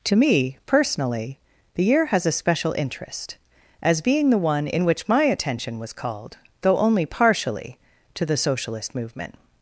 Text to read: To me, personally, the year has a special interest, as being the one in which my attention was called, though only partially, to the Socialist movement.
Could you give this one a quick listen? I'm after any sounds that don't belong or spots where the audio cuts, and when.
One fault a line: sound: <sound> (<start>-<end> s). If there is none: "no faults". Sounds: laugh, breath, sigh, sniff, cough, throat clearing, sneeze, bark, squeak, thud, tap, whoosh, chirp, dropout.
no faults